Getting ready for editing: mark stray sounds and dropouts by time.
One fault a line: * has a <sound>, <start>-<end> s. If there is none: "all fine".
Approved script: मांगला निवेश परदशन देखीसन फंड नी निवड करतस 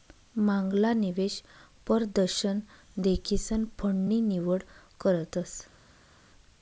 all fine